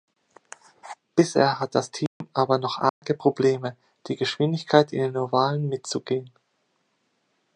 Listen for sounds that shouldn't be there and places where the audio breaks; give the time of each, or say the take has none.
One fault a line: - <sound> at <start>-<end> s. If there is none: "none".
- dropout at 2.1-2.2 s
- dropout at 2.9-3.0 s